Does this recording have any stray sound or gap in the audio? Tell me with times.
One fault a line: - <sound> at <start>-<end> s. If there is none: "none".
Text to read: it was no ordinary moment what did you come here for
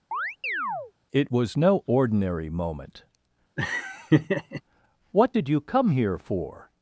- chirp at 0.1-0.9 s
- laugh at 3.6-4.6 s